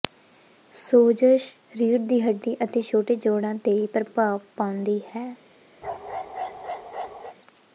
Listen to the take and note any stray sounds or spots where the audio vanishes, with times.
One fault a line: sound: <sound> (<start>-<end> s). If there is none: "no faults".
sound: bark (5.8-7.4 s)